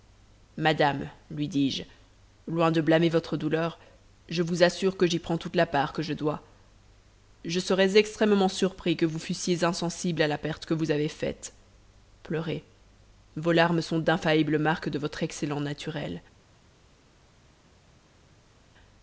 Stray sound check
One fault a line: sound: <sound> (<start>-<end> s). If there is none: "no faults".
no faults